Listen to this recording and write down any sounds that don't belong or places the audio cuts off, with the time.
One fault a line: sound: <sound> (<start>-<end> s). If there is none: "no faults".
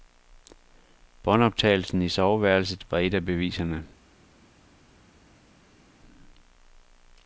no faults